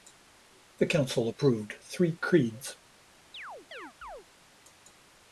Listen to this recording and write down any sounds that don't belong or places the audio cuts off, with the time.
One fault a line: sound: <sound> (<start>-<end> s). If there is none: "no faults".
sound: chirp (3.3-4.3 s)